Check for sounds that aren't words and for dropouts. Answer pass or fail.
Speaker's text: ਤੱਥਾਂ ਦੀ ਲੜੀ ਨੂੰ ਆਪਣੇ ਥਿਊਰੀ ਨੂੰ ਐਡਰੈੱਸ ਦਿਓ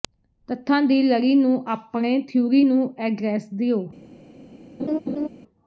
fail